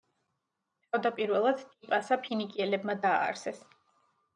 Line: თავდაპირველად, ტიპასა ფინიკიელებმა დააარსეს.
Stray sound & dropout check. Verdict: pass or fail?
pass